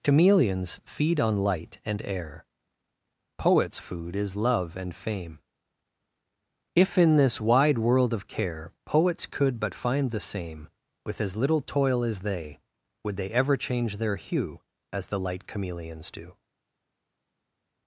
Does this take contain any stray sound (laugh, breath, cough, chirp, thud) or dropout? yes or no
no